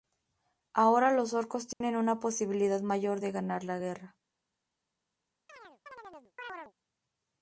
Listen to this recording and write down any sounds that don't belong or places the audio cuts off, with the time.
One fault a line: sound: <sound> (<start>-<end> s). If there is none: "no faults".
sound: dropout (1.7-1.8 s)
sound: chirp (5.5-6.7 s)